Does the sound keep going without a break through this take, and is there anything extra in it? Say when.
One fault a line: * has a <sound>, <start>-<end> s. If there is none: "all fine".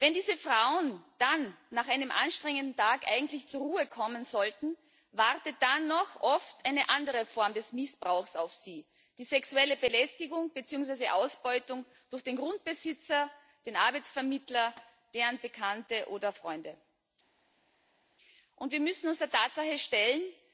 all fine